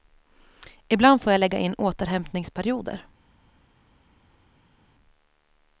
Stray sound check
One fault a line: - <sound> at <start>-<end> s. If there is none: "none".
none